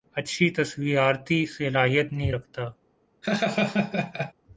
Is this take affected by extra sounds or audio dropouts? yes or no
yes